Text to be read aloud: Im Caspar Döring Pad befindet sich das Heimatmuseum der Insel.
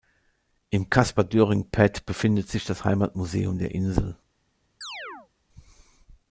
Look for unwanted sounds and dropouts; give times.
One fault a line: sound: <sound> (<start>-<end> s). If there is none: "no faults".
sound: chirp (4.8-5.3 s)